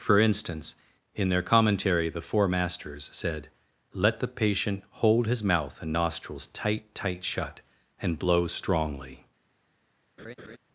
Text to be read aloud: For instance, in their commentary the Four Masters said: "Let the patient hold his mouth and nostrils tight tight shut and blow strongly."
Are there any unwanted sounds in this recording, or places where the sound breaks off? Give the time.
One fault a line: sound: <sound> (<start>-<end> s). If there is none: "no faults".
sound: laugh (10.2-10.6 s)